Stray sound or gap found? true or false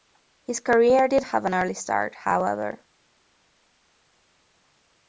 false